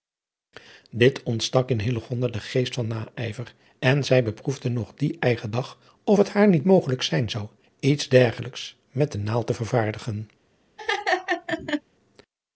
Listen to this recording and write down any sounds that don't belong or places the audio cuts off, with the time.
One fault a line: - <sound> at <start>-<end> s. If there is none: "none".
- laugh at 10.8-11.8 s